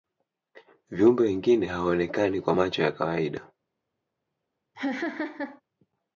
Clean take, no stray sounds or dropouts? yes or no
no